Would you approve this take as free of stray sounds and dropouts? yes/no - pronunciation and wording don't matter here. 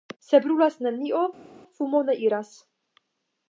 yes